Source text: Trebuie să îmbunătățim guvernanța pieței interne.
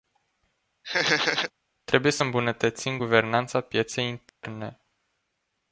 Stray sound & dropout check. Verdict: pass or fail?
fail